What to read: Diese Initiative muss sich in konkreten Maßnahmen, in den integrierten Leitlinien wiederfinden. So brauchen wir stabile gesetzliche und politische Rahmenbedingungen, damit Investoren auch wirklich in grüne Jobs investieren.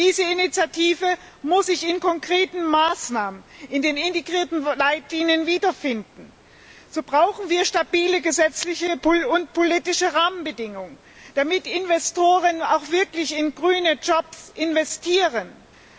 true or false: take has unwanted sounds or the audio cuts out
false